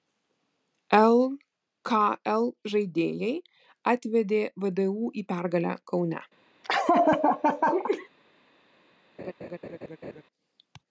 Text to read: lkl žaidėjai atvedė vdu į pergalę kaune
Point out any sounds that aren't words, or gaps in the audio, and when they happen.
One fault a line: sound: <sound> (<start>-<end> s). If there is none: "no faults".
sound: laugh (6.6-8.1 s)
sound: laugh (9.2-10.2 s)